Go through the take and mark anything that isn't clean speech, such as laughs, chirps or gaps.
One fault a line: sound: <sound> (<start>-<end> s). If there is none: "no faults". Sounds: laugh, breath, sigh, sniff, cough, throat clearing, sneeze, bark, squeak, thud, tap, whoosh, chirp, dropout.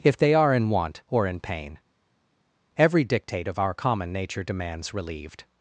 no faults